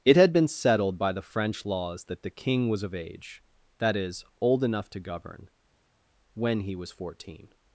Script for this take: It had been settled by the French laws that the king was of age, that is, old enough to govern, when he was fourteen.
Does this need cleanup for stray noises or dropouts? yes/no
no